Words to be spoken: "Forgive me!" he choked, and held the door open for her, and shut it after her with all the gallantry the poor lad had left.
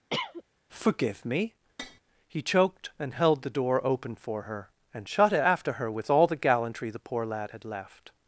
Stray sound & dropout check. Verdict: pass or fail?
fail